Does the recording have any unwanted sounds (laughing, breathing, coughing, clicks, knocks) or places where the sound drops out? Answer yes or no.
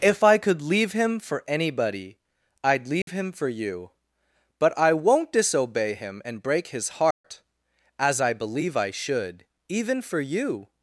yes